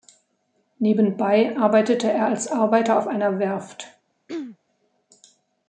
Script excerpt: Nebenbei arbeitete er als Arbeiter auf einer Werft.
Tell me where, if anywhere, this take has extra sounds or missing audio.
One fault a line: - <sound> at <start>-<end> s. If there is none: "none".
- throat clearing at 4.3-4.6 s